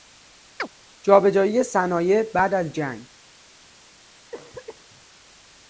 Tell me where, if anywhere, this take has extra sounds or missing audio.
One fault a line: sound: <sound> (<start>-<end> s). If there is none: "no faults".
sound: chirp (0.6-0.7 s)
sound: cough (4.3-5.1 s)